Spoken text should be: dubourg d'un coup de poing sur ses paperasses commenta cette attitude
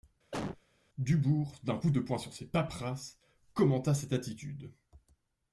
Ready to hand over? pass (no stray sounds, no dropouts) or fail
fail